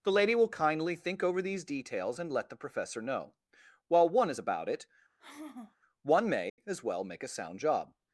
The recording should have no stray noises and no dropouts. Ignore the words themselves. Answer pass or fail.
fail